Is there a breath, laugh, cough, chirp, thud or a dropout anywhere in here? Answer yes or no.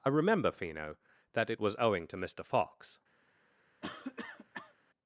yes